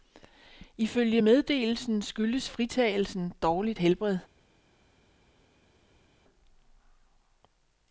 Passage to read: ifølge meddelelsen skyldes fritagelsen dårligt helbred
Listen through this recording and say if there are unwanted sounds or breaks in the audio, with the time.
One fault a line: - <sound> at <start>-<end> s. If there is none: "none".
none